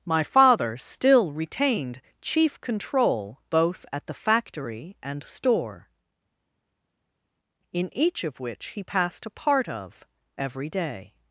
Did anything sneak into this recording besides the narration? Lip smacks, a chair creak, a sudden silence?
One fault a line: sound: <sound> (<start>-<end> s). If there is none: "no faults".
no faults